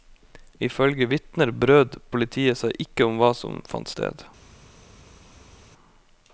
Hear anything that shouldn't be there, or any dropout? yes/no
no